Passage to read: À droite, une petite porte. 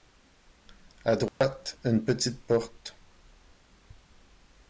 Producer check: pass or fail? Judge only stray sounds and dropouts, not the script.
fail